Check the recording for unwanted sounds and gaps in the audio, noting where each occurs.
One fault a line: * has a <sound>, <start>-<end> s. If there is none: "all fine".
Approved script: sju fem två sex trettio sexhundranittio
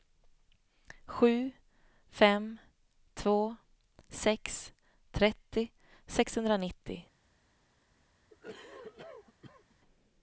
* has a cough, 8.3-9.8 s